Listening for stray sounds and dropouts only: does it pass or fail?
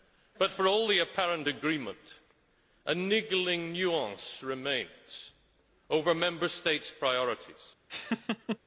fail